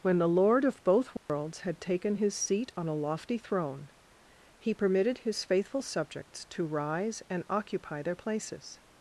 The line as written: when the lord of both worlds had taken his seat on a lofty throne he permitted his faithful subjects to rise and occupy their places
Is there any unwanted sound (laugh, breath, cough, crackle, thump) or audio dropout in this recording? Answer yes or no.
yes